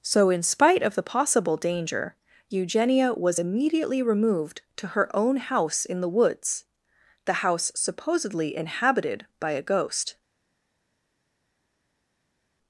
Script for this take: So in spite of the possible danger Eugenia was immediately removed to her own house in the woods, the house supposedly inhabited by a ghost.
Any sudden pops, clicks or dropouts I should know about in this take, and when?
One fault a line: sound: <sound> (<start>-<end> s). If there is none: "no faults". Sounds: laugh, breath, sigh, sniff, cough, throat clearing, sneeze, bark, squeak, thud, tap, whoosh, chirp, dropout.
no faults